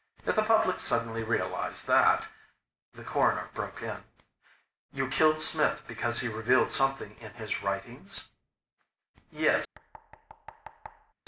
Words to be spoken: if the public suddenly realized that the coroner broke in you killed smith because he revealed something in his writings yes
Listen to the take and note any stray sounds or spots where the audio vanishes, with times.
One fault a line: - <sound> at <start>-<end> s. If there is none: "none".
- thud at 9.7-11.1 s